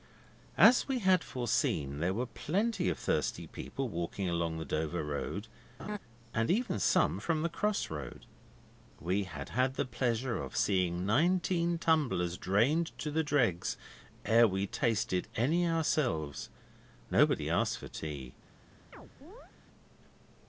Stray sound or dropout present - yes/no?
yes